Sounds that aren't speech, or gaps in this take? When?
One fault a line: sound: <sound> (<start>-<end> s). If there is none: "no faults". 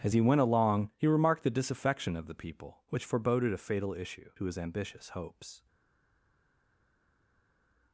no faults